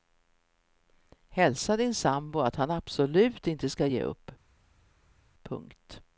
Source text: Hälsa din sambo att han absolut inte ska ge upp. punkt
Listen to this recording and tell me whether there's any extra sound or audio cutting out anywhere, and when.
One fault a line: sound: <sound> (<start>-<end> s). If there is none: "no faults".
no faults